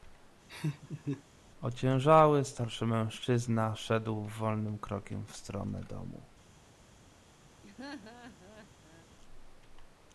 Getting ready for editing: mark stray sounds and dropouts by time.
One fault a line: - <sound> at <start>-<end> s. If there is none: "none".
- laugh at 0.5-1.2 s
- laugh at 7.6-9.1 s